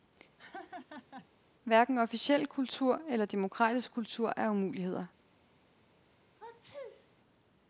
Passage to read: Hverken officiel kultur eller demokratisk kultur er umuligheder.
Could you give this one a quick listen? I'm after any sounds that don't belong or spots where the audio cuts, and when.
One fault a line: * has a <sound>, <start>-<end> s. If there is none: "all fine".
* has a laugh, 0.4-1.3 s
* has a sneeze, 6.4-7.1 s